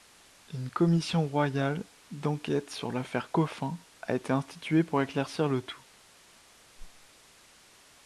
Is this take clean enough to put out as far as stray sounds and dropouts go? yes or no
no